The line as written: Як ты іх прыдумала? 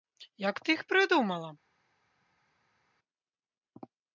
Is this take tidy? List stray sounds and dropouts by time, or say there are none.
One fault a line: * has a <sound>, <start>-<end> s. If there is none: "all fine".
all fine